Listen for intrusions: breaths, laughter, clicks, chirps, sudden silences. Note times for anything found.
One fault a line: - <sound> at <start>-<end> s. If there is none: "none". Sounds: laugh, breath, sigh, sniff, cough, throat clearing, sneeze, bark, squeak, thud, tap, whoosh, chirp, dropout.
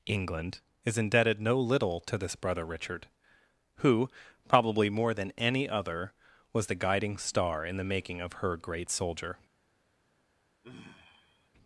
- sigh at 10.6-11.5 s